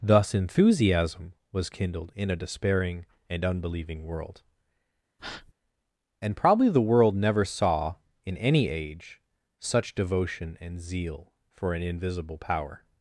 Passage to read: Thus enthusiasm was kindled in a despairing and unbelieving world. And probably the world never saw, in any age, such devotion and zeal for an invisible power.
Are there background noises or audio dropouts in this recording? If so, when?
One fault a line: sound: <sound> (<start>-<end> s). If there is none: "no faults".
sound: breath (5.2-5.5 s)